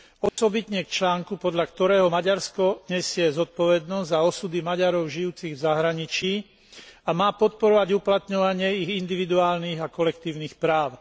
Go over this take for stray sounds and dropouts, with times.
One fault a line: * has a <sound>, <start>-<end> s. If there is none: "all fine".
* has a dropout, 0.3-0.4 s